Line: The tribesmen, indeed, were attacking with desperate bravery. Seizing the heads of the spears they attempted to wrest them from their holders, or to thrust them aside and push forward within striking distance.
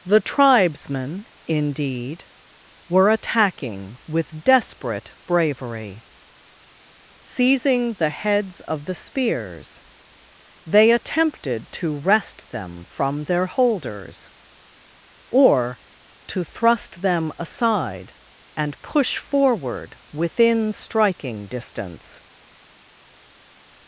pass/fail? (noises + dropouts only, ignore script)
pass